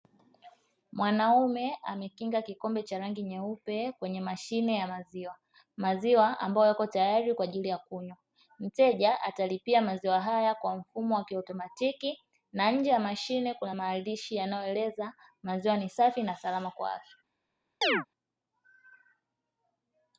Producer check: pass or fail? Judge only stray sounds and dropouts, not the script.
fail